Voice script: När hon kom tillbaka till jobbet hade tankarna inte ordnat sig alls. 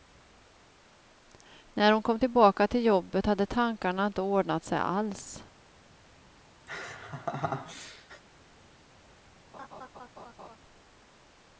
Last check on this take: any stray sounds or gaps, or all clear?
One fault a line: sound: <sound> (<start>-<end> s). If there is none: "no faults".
sound: laugh (6.7-8.2 s)
sound: laugh (9.5-10.6 s)